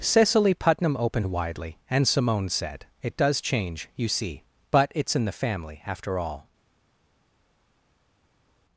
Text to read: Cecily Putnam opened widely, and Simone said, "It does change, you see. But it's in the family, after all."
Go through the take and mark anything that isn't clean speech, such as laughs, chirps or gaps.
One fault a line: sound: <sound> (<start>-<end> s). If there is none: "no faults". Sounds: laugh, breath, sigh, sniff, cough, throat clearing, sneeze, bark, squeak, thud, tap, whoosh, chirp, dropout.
no faults